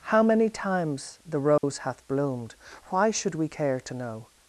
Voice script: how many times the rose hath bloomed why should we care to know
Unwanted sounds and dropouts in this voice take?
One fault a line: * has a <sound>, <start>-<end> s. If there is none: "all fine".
* has a dropout, 1.6-1.6 s